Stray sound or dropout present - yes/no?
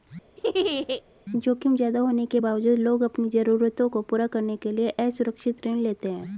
yes